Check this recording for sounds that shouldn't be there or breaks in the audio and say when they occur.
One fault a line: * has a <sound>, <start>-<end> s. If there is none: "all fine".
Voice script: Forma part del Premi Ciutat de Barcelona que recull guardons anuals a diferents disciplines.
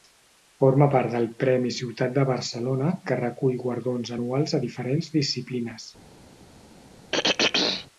* has a throat clearing, 7.1-7.9 s